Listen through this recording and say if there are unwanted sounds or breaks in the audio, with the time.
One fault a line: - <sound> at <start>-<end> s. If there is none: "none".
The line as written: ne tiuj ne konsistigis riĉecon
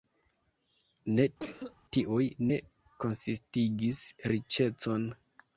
- cough at 1.4-1.8 s